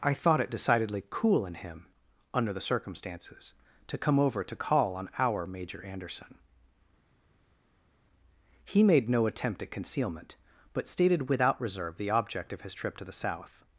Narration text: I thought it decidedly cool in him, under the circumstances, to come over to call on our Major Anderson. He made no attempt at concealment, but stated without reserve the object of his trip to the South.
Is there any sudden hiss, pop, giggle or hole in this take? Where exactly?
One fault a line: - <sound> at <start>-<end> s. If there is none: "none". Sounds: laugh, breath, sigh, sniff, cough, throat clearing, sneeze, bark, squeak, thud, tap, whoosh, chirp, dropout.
none